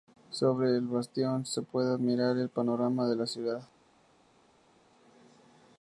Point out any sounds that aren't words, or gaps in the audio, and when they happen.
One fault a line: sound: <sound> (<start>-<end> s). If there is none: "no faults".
no faults